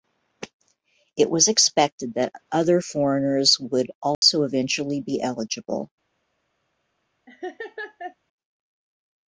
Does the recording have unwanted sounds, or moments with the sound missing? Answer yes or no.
yes